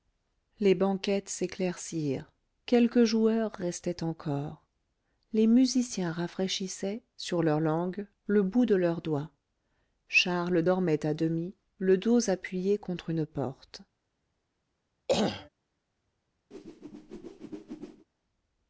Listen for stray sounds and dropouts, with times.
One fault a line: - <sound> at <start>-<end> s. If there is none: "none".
- throat clearing at 15.1-15.5 s
- whoosh at 16.5-18.1 s